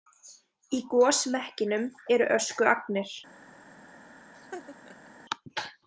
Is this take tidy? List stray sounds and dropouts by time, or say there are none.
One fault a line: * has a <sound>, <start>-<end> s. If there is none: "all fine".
* has a laugh, 4.3-5.2 s